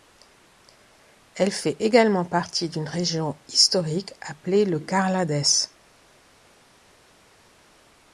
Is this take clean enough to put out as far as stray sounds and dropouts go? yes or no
yes